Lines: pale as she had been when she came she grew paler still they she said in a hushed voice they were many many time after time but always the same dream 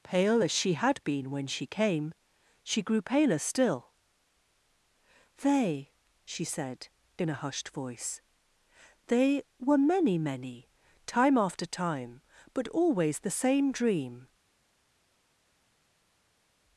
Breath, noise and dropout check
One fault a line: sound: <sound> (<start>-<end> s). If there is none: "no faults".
no faults